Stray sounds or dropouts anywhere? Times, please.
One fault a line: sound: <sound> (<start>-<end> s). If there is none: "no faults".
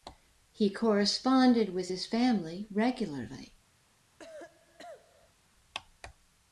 sound: cough (4.2-5.4 s)